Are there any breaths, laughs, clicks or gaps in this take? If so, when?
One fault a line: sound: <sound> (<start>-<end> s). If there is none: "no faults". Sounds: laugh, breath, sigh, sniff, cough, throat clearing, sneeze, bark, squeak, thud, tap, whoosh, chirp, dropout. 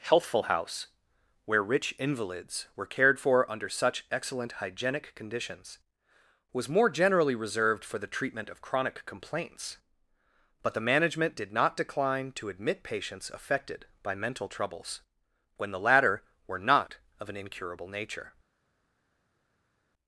no faults